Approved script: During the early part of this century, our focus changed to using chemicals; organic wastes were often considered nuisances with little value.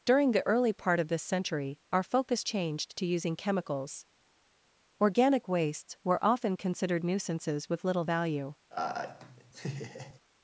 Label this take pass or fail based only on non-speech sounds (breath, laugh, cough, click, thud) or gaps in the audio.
fail